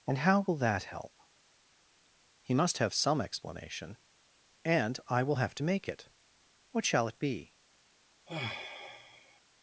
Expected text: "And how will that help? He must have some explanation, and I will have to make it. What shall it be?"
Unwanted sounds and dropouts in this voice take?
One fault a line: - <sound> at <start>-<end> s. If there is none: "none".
- sigh at 8.3-9.4 s